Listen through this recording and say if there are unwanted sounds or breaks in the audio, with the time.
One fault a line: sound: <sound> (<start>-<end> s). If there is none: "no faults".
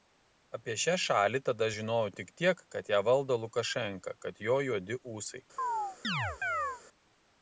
sound: chirp (5.6-6.8 s)